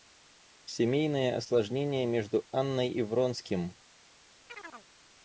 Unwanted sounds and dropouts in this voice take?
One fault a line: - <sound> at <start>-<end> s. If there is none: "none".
- chirp at 4.5-4.9 s